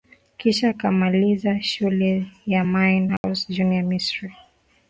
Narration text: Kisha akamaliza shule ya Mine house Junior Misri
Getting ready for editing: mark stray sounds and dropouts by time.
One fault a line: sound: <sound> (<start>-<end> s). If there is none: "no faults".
sound: dropout (3.2-3.2 s)